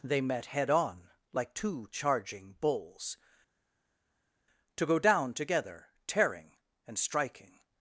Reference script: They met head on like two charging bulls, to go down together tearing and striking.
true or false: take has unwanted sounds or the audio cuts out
false